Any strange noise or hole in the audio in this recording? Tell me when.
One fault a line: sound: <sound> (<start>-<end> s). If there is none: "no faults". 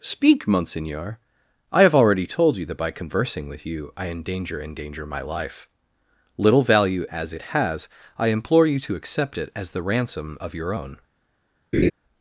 sound: laugh (11.7-11.9 s)